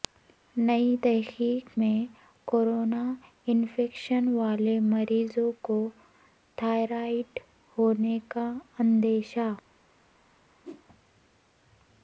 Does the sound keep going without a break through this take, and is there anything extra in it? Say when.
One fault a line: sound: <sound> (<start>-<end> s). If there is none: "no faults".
sound: whoosh (10.6-10.9 s)